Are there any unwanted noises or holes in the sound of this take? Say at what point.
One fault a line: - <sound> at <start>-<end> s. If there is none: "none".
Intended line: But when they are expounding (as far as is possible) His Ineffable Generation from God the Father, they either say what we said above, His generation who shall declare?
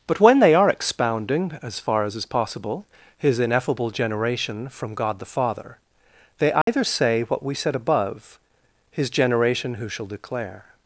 - dropout at 6.6-6.7 s